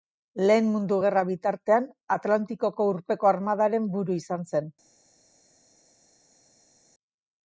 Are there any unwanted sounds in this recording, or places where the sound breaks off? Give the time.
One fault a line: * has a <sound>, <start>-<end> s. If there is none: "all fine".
all fine